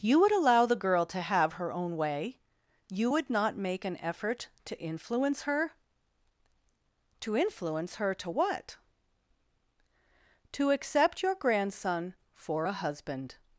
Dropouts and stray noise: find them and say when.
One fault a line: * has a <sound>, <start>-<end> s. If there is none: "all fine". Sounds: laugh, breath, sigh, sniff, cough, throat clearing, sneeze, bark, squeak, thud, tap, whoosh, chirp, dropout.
all fine